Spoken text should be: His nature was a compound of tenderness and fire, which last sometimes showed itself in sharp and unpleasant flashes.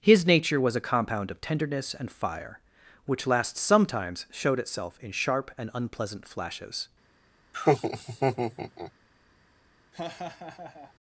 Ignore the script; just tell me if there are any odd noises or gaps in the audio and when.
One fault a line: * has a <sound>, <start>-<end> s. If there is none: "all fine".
* has a laugh, 7.5-8.9 s
* has a laugh, 9.9-10.9 s